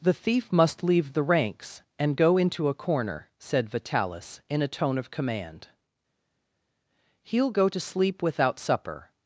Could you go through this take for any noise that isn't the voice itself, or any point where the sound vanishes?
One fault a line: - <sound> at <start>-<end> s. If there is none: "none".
none